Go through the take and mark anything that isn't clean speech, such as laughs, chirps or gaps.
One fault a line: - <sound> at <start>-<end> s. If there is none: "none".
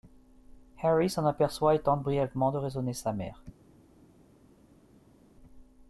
none